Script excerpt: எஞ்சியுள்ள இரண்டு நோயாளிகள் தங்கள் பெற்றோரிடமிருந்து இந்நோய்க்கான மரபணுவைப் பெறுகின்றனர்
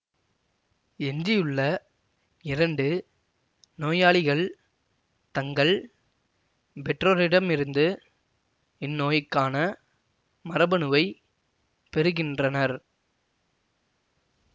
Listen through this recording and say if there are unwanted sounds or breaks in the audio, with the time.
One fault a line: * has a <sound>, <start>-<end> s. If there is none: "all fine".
all fine